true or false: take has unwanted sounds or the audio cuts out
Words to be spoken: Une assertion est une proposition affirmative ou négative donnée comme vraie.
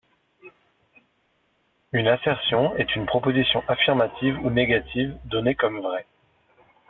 false